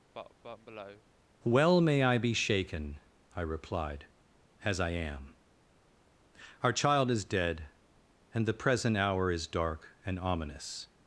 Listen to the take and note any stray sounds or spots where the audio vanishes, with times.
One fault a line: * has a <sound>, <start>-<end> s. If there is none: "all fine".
* has a cough, 0.1-1.0 s